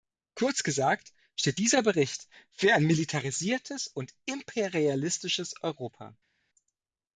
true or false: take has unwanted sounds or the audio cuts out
false